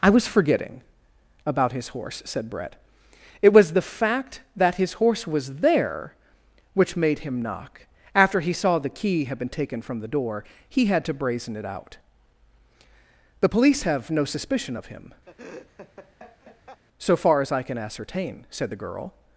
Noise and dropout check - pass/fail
fail